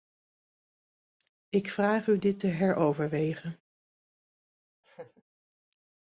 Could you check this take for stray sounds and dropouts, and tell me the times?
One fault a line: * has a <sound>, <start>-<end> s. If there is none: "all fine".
* has a laugh, 4.8-5.2 s